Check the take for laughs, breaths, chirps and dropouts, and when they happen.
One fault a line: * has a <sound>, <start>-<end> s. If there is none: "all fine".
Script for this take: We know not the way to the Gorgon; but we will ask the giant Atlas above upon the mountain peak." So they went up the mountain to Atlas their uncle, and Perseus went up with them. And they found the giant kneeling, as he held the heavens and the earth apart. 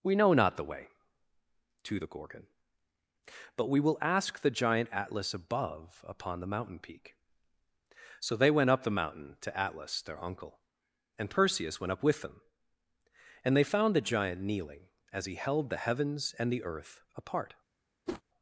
* has a whoosh, 18.1-18.2 s